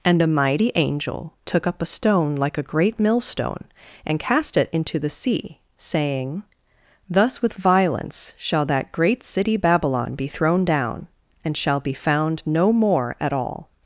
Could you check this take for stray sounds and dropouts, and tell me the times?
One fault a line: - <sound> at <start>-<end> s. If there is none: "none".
none